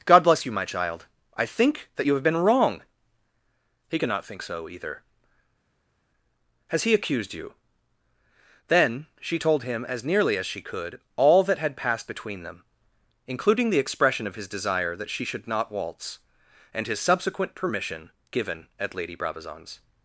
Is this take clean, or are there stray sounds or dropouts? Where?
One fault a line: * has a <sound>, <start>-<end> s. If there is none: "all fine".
all fine